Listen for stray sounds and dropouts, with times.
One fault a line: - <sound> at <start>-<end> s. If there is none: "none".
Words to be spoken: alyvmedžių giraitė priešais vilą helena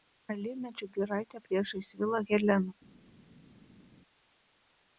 none